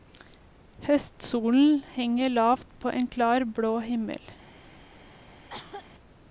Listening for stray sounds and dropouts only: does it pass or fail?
fail